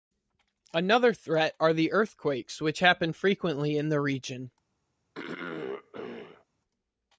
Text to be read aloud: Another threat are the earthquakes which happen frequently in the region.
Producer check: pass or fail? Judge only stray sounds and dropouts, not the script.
fail